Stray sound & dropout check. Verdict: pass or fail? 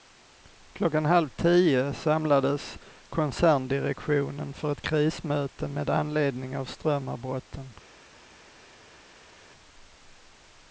pass